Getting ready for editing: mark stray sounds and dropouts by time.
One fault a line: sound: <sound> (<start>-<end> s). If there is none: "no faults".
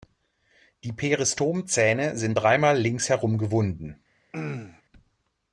sound: throat clearing (4.3-4.8 s)